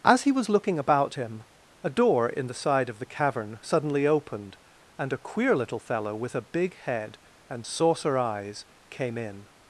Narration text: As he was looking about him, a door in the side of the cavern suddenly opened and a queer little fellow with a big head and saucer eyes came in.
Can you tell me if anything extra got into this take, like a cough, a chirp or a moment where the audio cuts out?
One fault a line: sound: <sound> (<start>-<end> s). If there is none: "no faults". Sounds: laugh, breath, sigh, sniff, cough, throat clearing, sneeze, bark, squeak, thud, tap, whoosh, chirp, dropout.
no faults